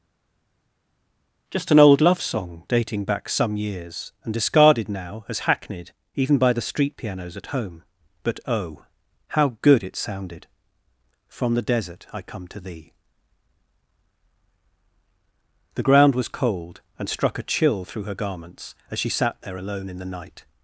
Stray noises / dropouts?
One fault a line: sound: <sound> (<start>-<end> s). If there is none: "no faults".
no faults